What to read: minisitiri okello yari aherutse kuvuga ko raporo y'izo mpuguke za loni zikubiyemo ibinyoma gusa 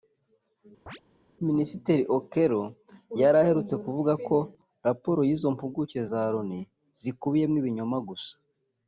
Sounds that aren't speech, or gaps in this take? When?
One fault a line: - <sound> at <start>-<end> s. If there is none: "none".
- chirp at 0.9-1.0 s